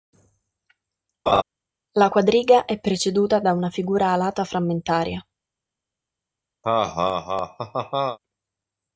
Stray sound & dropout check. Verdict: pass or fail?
fail